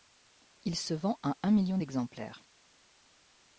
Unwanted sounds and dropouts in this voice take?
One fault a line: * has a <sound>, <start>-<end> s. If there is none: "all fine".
all fine